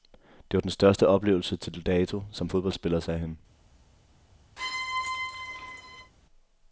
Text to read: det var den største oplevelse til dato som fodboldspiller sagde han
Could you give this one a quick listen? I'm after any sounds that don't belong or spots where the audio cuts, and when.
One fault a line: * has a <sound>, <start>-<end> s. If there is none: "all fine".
* has a squeak, 4.6-6.1 s